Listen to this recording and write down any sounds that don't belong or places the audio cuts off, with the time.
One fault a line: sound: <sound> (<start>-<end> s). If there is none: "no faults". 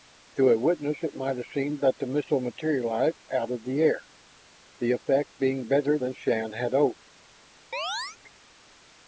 sound: chirp (7.7-8.2 s)